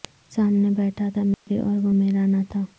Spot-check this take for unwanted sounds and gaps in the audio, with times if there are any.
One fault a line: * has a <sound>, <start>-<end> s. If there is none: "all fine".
* has a dropout, 1.3-1.5 s